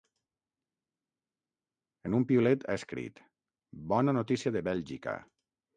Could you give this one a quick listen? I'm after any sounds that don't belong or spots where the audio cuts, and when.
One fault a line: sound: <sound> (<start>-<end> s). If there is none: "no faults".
no faults